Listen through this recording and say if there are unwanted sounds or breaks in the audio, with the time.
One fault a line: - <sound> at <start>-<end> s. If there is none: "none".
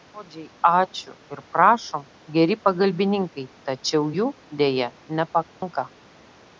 - dropout at 5.5-5.6 s